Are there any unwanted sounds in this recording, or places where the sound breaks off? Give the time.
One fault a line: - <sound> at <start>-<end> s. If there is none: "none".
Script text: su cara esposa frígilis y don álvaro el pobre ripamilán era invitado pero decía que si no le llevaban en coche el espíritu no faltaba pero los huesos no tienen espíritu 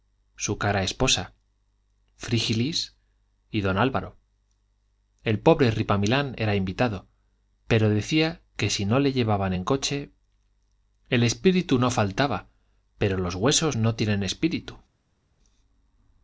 none